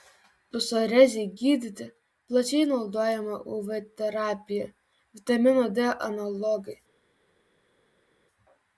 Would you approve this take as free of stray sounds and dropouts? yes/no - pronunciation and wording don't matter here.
yes